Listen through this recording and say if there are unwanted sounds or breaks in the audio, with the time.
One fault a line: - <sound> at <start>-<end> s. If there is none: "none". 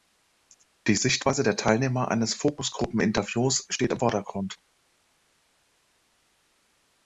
none